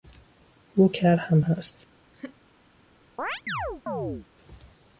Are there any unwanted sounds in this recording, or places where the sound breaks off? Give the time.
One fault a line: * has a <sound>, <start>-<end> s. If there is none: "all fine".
* has a laugh, 2.1-2.4 s
* has a chirp, 3.2-4.3 s